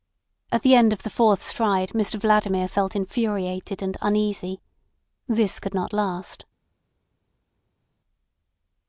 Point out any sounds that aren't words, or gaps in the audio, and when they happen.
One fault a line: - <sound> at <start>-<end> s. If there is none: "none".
none